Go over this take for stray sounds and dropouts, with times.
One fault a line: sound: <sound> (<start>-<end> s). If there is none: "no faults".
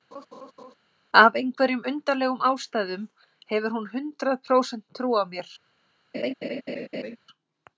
sound: laugh (0.1-0.7 s)
sound: laugh (6.1-7.2 s)